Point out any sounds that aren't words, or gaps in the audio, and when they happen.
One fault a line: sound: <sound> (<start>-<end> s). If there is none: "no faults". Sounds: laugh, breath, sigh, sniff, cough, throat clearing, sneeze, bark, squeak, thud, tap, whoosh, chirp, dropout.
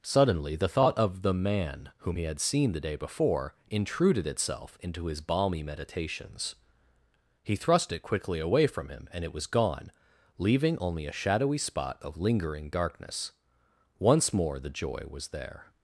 no faults